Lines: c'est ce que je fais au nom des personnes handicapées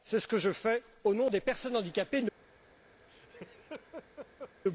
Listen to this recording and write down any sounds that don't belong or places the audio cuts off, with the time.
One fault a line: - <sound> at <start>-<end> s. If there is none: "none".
- laugh at 3.1-4.5 s